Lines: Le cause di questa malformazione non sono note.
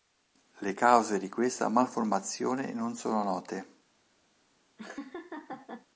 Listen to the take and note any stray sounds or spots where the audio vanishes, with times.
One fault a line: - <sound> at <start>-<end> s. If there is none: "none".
- laugh at 4.8-5.9 s